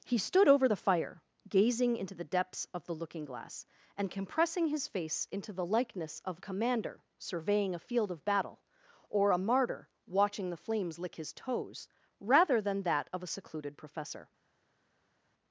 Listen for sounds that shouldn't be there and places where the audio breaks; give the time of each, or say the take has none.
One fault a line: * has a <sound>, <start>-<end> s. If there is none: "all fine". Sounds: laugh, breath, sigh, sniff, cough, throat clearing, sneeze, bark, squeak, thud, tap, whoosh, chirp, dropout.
all fine